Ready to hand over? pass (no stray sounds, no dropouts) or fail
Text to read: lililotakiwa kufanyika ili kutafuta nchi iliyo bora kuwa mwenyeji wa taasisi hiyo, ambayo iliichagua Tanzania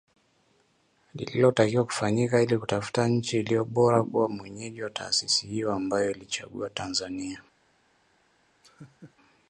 fail